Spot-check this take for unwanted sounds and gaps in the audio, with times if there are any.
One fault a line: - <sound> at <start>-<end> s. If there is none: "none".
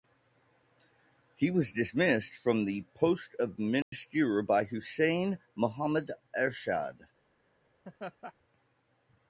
- dropout at 3.8-3.9 s
- laugh at 7.8-8.3 s